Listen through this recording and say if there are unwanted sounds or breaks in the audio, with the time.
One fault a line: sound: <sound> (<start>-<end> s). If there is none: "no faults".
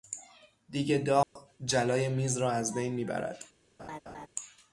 sound: dropout (1.2-1.4 s)
sound: laugh (3.8-4.3 s)